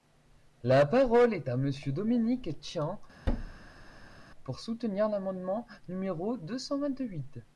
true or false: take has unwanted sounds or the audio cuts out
true